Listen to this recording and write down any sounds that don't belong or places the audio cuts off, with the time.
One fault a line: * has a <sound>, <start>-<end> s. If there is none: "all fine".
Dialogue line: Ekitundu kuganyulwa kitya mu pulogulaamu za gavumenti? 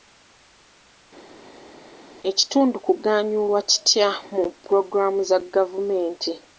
all fine